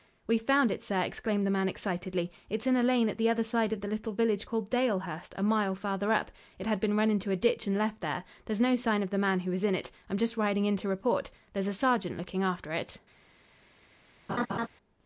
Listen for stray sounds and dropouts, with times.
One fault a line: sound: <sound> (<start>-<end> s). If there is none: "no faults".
sound: laugh (14.3-14.7 s)